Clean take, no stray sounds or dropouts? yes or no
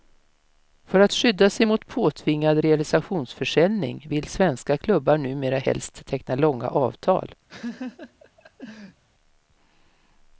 no